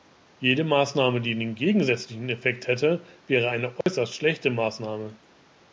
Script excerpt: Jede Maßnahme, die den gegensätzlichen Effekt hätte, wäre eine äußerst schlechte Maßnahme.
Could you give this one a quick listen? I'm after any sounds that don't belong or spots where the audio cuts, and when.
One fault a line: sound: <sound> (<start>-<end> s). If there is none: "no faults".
sound: dropout (3.8-3.9 s)